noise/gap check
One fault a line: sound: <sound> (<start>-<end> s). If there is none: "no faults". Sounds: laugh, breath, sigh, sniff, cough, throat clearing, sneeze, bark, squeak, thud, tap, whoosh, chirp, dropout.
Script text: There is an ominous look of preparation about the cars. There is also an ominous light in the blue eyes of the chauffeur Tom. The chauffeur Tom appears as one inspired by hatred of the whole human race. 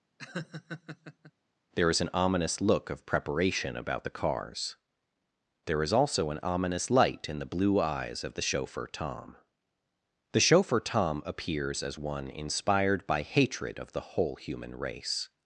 sound: laugh (0.2-1.3 s)